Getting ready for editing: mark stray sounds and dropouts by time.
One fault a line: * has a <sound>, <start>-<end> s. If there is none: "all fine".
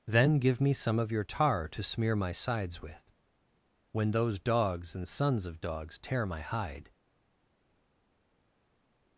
all fine